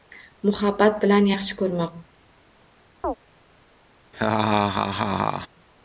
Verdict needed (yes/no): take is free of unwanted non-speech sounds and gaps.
no